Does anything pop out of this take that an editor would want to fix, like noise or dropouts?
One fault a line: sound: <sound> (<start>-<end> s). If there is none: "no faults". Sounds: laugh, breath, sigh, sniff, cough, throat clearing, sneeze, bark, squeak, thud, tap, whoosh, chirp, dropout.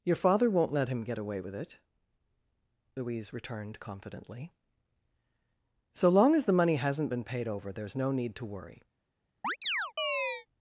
sound: chirp (9.4-10.5 s)